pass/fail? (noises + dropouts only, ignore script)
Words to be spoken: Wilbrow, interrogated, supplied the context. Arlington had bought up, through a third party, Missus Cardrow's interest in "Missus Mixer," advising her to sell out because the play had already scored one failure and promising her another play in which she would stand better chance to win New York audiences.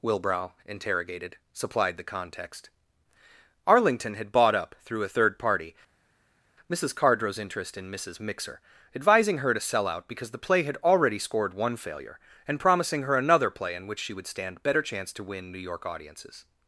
pass